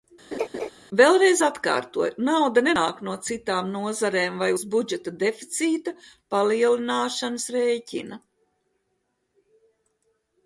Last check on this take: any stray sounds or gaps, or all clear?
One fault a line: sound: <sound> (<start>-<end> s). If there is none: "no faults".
sound: laugh (0.3-0.7 s)